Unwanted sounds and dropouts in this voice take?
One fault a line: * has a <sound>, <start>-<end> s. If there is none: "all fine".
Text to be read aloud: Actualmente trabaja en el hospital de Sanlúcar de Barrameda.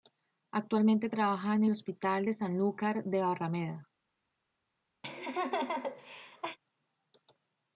* has a laugh, 5.0-6.6 s